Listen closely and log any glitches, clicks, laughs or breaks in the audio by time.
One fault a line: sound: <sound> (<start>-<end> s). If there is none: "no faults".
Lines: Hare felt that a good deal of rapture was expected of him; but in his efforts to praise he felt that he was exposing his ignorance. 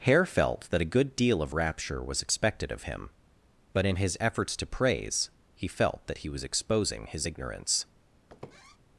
sound: squeak (8.3-8.8 s)